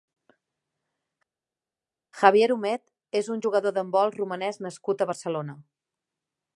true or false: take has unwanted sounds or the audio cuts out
false